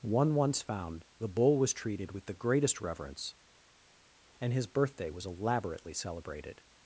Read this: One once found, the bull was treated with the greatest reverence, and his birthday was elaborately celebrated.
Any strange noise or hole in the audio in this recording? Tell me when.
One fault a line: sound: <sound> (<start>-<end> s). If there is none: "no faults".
no faults